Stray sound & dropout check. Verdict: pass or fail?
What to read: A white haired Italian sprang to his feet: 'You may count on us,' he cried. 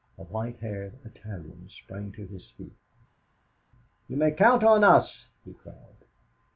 pass